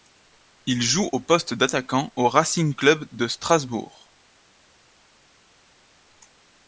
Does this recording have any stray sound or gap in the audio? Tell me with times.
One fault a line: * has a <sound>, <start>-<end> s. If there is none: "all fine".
all fine